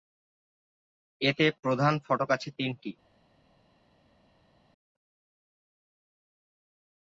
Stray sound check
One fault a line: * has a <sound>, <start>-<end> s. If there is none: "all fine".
all fine